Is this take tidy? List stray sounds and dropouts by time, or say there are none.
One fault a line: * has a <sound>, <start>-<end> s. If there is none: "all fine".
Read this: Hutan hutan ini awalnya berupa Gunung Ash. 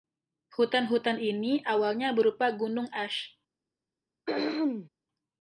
* has a throat clearing, 4.3-4.9 s